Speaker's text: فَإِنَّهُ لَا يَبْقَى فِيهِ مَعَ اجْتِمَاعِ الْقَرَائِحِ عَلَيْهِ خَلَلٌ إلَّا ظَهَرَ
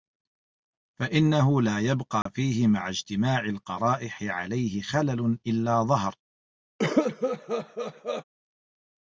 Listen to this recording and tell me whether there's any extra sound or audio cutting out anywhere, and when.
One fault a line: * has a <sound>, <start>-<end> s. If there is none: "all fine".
* has a dropout, 2.2-2.3 s
* has a cough, 6.8-8.2 s